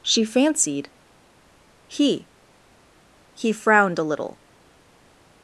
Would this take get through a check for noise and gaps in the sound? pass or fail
pass